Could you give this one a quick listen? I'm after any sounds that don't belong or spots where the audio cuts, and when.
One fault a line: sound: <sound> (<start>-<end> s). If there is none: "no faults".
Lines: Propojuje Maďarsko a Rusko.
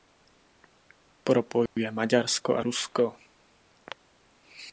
sound: dropout (1.7-1.8 s)